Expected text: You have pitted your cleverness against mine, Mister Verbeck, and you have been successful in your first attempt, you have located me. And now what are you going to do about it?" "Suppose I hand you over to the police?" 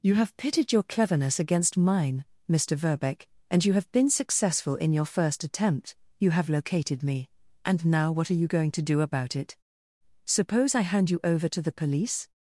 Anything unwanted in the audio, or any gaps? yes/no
no